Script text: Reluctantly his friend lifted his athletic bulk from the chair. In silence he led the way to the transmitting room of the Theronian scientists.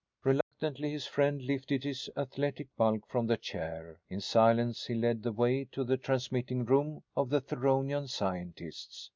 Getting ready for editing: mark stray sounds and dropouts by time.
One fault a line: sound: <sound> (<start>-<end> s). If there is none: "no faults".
sound: dropout (0.4-0.5 s)